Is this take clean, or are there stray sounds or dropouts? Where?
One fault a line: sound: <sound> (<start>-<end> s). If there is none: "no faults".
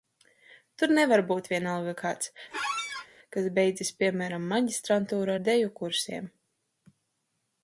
sound: squeak (2.5-3.1 s)